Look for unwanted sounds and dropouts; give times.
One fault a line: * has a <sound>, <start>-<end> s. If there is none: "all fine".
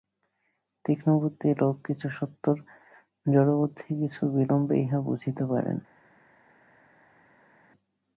all fine